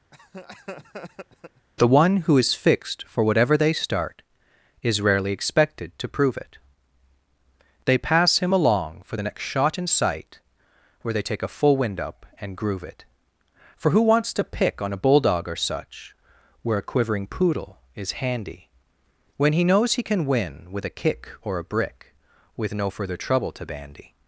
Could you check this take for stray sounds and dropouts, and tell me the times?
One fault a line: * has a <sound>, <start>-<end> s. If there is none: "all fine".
* has a laugh, 0.1-1.7 s